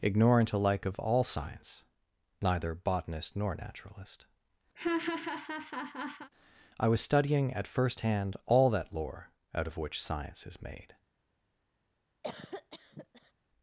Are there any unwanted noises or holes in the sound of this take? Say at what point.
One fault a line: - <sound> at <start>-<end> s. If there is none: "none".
- laugh at 4.7-6.3 s
- cough at 12.2-13.3 s